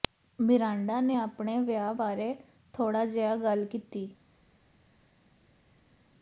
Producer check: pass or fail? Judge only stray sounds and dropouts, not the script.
pass